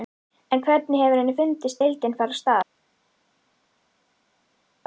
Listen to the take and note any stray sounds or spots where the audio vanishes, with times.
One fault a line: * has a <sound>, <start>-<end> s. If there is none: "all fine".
all fine